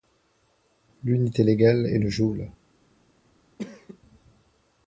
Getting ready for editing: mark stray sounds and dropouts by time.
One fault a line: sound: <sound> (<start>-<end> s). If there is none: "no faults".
sound: cough (3.6-4.0 s)